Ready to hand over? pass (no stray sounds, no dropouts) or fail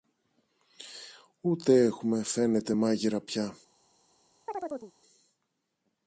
fail